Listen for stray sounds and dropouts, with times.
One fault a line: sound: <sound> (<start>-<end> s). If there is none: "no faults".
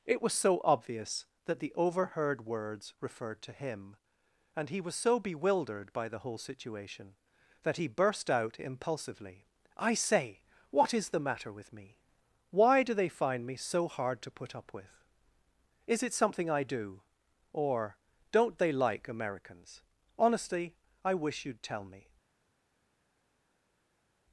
no faults